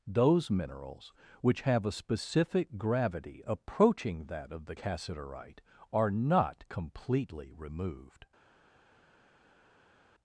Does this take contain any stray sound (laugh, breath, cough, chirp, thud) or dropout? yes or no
no